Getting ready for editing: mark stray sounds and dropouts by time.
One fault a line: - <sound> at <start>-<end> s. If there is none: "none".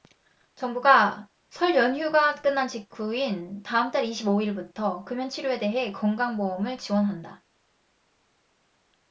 none